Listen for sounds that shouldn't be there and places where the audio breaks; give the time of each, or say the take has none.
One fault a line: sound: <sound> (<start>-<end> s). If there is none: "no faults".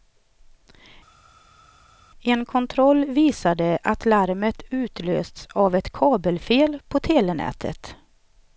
no faults